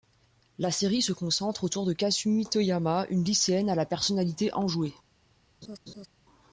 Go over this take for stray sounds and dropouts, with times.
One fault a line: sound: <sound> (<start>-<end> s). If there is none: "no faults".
sound: laugh (5.6-6.1 s)